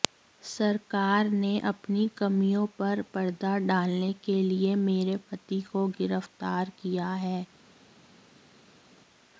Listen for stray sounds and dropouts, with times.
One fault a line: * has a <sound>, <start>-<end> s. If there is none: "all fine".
all fine